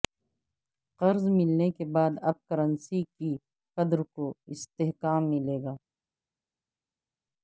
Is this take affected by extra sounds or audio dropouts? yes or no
no